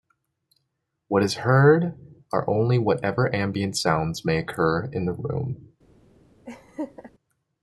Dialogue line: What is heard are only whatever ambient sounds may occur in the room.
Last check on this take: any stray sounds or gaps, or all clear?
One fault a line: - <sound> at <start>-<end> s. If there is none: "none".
- laugh at 6.5-7.1 s